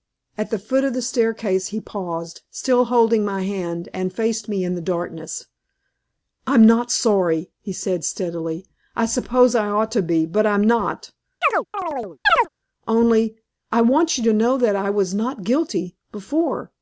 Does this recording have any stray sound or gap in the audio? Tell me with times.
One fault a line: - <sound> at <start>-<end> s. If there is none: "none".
- chirp at 11.4-12.5 s